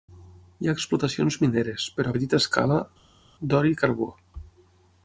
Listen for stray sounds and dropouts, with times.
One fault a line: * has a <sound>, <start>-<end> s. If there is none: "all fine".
all fine